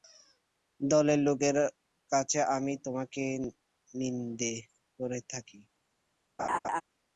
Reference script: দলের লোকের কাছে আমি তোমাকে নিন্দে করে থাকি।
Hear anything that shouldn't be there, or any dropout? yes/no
yes